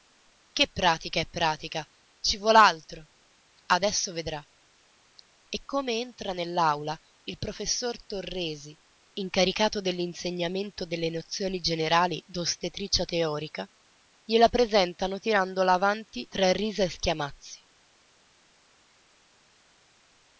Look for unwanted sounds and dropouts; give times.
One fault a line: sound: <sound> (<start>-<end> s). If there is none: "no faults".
no faults